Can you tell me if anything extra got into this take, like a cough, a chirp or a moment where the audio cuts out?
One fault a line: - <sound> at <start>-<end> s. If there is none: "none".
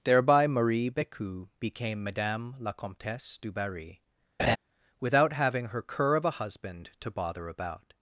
- laugh at 4.4-4.6 s